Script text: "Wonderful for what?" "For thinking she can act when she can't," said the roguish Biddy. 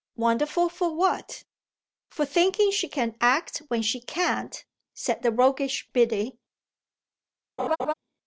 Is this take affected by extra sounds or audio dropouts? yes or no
yes